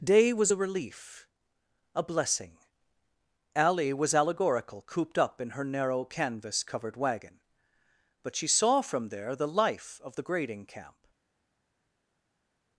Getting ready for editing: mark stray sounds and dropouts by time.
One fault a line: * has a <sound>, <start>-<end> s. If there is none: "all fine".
all fine